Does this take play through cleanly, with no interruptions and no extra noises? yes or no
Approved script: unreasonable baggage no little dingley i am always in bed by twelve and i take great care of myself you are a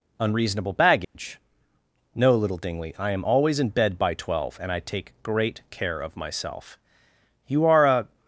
no